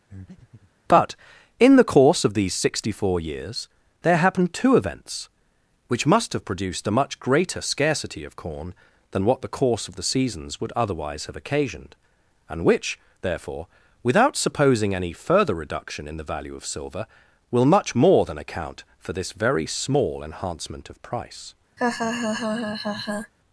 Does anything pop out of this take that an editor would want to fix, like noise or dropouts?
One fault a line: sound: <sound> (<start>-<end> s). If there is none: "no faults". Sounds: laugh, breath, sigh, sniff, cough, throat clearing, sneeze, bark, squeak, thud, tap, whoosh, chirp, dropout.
sound: breath (0.1-0.7 s)
sound: laugh (21.8-23.3 s)